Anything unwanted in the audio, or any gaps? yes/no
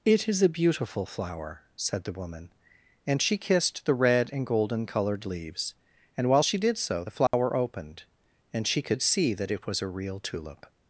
yes